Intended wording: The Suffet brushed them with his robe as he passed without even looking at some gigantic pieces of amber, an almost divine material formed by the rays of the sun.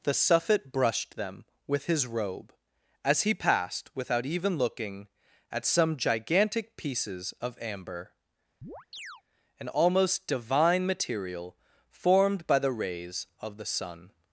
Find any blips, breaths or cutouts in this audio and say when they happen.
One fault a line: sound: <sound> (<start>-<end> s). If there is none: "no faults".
sound: chirp (8.6-9.2 s)